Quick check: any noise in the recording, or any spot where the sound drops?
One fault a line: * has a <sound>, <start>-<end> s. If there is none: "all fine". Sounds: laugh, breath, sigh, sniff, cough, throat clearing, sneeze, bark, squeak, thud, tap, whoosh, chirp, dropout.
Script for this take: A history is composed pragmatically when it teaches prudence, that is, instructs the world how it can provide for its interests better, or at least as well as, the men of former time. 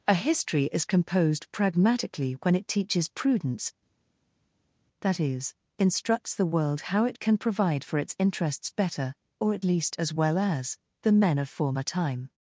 all fine